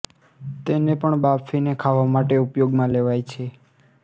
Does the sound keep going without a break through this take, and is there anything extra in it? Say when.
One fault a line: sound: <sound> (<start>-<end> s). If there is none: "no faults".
no faults